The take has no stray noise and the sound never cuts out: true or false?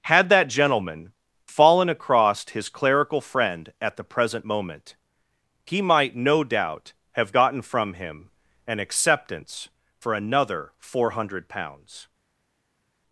true